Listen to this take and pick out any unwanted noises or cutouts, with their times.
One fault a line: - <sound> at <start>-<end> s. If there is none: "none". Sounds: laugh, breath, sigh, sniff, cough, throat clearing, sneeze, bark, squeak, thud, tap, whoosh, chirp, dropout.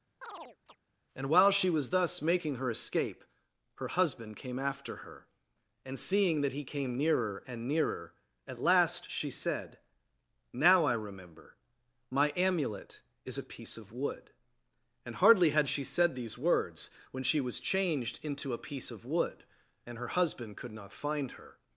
- chirp at 0.2-0.8 s